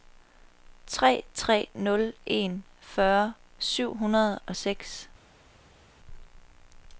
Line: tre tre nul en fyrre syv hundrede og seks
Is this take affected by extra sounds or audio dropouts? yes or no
no